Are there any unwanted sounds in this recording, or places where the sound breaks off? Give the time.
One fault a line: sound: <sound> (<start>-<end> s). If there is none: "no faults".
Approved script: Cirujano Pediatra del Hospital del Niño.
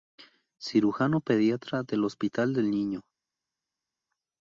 no faults